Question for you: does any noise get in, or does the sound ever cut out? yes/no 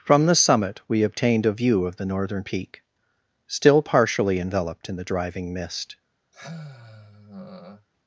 yes